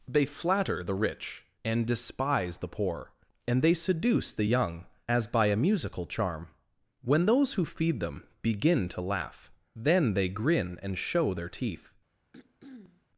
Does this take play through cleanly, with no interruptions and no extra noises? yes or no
no